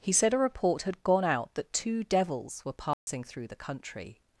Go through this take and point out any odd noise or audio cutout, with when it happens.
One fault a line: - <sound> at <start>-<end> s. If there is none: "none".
- dropout at 2.9-3.1 s